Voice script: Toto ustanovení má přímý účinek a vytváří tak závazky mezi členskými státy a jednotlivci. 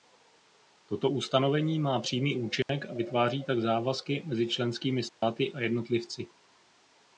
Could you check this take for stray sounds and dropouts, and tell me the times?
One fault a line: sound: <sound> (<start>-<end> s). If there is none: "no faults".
sound: dropout (2.6-2.7 s)
sound: dropout (5.1-5.2 s)